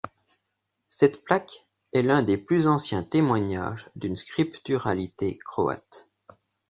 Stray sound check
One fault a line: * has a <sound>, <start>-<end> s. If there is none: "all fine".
all fine